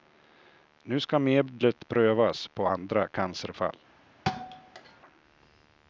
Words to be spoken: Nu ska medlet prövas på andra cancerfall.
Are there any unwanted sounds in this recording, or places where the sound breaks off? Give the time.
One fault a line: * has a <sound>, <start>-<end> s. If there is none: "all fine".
* has a thud, 4.3-5.0 s